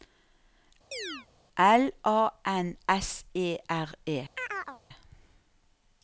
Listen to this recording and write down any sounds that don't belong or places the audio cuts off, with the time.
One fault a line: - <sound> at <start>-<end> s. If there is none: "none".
- chirp at 0.9-1.3 s
- chirp at 4.4-4.8 s